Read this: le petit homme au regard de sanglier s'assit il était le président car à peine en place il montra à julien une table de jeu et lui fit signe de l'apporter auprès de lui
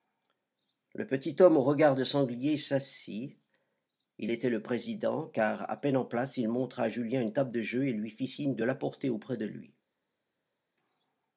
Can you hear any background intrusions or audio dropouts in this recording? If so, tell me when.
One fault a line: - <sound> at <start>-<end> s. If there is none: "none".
none